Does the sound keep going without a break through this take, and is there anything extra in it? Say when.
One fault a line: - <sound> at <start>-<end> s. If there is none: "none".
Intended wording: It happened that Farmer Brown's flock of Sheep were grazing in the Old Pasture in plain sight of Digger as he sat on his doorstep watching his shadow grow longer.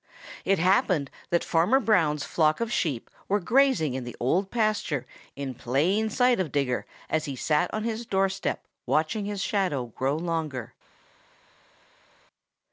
none